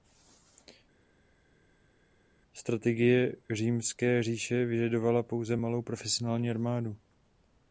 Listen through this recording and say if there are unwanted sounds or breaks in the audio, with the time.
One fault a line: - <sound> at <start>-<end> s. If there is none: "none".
none